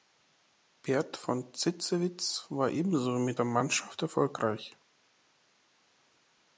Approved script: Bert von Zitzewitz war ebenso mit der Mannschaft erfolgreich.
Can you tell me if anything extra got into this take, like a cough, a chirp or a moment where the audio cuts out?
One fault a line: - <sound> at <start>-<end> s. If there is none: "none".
none